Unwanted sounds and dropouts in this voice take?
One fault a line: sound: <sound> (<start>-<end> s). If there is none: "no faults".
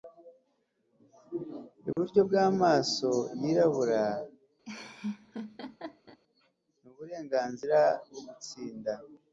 sound: dropout (1.9-2.0 s)
sound: laugh (4.6-6.2 s)